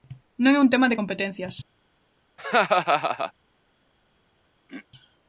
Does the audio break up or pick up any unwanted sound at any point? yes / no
yes